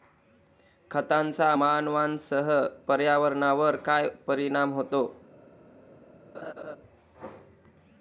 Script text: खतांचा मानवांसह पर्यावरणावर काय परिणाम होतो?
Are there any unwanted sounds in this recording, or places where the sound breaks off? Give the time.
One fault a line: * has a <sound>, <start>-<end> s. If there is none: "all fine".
* has a laugh, 6.3-6.8 s